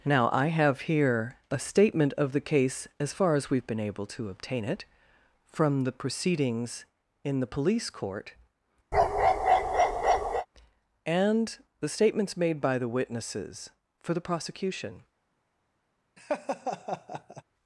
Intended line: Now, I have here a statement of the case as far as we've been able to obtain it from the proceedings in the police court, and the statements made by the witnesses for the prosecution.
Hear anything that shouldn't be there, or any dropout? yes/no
yes